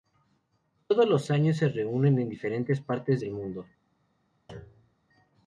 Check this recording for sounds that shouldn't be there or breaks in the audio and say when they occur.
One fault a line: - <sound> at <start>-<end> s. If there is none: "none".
- thud at 4.5-5.0 s